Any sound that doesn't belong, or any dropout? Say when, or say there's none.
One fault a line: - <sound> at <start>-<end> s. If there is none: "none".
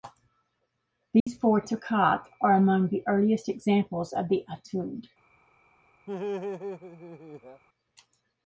- dropout at 1.2-1.3 s
- laugh at 6.1-7.6 s